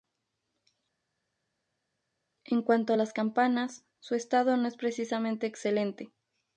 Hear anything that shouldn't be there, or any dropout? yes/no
no